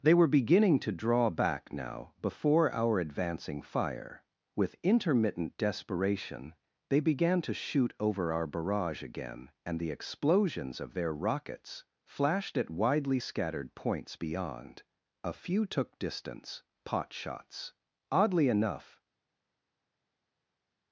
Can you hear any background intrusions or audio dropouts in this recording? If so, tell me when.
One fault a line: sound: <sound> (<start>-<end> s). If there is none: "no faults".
no faults